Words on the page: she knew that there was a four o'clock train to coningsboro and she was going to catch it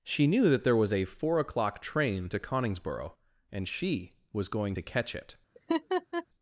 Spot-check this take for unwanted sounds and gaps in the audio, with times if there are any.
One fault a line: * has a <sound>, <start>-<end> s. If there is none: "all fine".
* has a laugh, 5.5-6.3 s